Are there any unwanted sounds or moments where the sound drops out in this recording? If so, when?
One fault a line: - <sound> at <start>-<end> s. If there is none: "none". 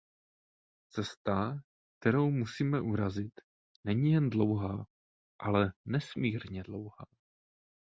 none